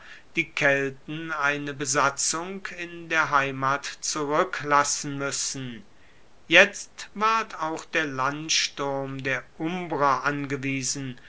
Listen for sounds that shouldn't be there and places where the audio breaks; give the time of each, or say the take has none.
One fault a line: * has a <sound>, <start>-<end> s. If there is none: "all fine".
all fine